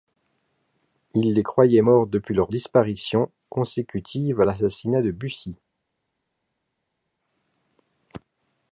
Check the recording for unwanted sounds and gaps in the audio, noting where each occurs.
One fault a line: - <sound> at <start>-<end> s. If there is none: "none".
none